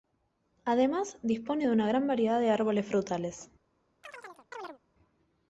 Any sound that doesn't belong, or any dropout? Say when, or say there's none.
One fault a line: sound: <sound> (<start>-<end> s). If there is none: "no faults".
sound: chirp (4.0-4.8 s)